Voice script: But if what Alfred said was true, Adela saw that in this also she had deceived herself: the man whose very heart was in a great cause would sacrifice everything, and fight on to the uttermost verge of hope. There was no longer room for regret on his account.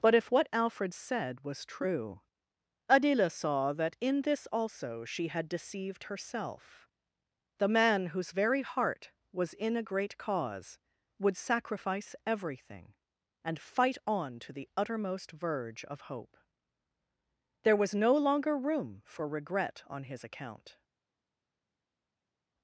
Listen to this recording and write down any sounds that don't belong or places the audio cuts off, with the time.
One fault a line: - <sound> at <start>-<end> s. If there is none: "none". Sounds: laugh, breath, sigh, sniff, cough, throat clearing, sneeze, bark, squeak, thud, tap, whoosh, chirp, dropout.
none